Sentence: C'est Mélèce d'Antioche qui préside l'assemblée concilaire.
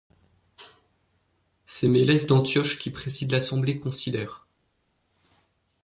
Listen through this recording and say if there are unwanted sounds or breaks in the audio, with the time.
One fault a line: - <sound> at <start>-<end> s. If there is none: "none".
none